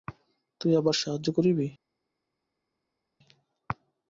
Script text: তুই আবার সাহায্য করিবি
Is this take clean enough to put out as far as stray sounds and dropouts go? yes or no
yes